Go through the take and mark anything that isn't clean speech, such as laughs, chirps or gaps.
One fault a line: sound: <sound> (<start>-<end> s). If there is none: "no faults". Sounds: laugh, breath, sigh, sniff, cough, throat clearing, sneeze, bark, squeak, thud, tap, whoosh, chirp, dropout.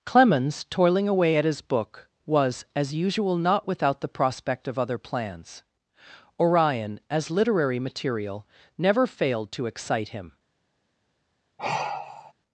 sound: sigh (11.6-12.3 s)